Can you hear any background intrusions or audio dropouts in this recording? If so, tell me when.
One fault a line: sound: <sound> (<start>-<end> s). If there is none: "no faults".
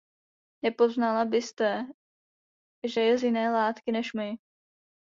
no faults